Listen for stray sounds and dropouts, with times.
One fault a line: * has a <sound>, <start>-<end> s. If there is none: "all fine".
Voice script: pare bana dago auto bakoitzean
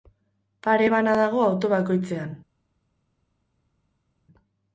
all fine